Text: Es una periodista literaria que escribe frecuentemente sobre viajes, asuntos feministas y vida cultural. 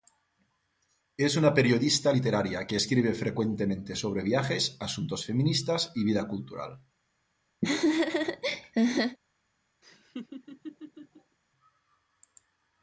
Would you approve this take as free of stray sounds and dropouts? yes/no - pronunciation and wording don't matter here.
no